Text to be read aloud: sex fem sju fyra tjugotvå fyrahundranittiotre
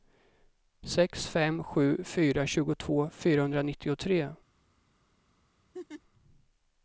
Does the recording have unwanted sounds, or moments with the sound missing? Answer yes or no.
yes